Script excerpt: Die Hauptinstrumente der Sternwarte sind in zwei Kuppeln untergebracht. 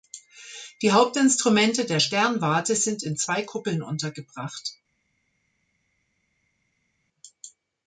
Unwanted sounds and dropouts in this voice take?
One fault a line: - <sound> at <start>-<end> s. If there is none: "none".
none